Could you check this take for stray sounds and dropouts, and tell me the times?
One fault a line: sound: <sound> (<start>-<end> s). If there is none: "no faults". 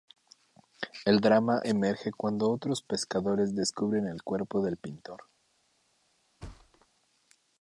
sound: thud (6.4-6.9 s)